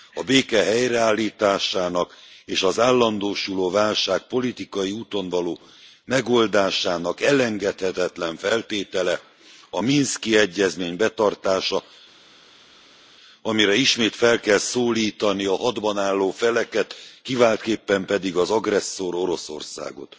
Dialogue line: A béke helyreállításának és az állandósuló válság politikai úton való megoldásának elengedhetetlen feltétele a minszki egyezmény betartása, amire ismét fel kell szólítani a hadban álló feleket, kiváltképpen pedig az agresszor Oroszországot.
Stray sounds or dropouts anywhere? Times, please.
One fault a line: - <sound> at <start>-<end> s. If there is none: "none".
none